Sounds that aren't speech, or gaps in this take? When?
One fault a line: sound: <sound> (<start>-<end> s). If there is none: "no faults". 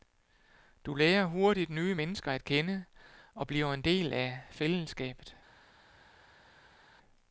no faults